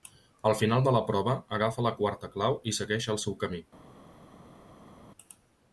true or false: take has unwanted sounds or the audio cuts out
false